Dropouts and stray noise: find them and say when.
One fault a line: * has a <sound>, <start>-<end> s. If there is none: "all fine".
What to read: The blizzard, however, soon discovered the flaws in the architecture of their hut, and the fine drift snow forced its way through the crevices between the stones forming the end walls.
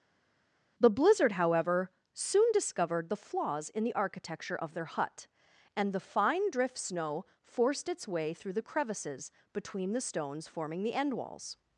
all fine